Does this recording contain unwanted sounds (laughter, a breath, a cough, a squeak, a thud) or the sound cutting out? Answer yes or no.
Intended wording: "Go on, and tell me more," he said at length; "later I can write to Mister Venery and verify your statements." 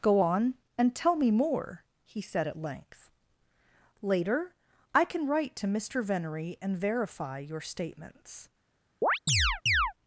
yes